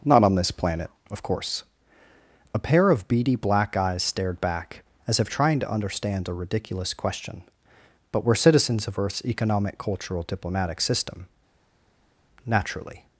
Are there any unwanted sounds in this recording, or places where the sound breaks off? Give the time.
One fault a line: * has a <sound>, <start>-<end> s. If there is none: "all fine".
all fine